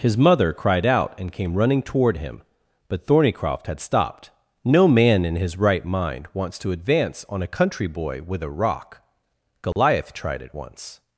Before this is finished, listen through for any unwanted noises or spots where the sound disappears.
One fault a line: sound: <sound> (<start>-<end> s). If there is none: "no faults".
sound: dropout (9.7-9.8 s)